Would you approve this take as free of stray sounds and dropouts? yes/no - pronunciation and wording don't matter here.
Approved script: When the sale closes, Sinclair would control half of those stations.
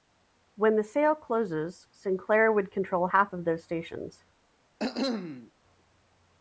no